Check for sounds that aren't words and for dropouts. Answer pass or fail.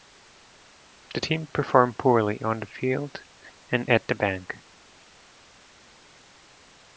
pass